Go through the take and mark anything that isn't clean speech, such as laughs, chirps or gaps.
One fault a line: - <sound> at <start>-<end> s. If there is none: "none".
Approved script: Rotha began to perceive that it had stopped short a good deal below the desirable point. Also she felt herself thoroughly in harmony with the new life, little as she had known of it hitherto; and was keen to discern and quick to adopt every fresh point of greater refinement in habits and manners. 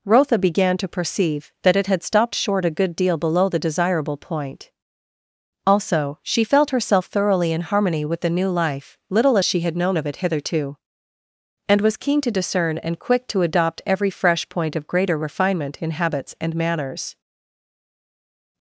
none